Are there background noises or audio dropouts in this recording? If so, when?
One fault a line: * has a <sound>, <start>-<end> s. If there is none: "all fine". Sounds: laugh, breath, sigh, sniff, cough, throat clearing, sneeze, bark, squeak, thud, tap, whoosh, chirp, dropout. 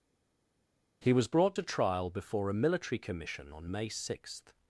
all fine